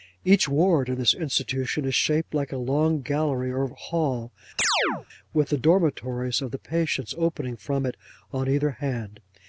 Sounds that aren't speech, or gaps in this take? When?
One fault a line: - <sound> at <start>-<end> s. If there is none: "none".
- chirp at 4.6-5.1 s